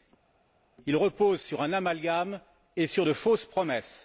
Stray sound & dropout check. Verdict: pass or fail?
pass